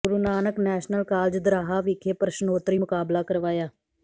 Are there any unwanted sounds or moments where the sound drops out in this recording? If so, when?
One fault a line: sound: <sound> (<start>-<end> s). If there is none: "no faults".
no faults